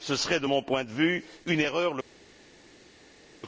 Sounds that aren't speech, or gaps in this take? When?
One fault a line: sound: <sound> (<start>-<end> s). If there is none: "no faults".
no faults